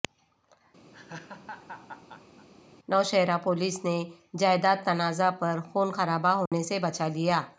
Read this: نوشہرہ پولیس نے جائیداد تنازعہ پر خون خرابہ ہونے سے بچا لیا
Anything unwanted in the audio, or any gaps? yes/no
yes